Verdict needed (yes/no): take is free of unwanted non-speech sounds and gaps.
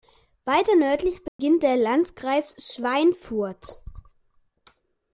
no